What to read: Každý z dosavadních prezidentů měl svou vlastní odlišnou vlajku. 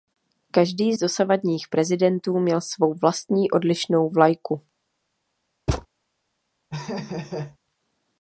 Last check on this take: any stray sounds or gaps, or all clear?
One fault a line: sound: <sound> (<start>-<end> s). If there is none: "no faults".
sound: thud (5.7-5.9 s)
sound: laugh (6.7-7.6 s)